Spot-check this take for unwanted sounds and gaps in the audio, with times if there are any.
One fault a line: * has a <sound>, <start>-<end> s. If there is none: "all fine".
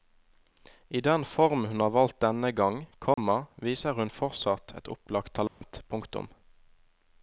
* has a dropout, 3.1-3.2 s
* has a dropout, 5.5-5.6 s